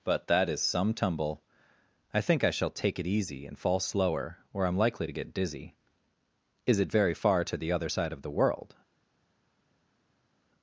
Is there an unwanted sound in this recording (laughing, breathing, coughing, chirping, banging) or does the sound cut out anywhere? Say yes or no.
no